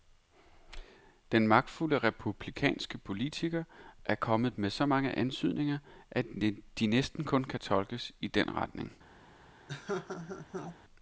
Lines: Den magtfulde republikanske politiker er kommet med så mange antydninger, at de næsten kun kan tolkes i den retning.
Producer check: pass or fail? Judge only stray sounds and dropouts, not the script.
fail